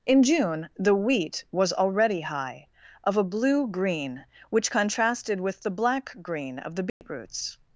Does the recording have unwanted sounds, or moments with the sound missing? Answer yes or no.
yes